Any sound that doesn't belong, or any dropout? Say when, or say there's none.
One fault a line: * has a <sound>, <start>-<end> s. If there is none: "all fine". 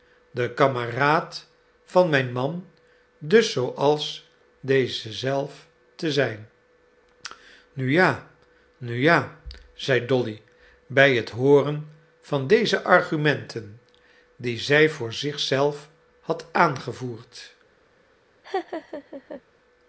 * has a laugh, 18.4-19.4 s